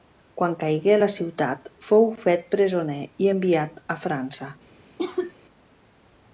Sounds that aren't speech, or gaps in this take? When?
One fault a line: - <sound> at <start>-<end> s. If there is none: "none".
- cough at 5.0-5.3 s